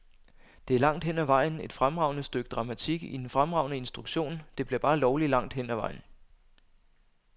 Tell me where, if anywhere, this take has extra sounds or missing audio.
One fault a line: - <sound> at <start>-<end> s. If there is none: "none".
none